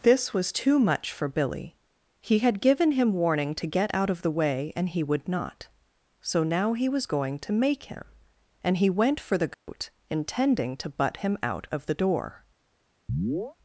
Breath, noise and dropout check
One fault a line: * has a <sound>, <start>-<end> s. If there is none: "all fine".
* has a dropout, 9.5-9.7 s
* has a chirp, 13.1-13.6 s